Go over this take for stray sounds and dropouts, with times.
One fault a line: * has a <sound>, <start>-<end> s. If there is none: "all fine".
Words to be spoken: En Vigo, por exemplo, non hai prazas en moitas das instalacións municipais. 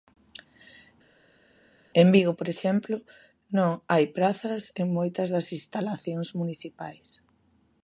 all fine